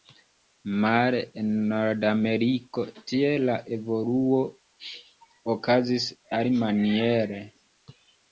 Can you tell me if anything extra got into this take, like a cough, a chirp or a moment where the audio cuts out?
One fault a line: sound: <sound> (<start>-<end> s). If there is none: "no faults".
no faults